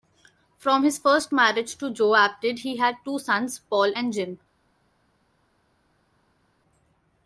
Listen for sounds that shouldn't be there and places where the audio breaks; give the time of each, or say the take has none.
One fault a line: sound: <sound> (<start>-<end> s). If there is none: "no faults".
no faults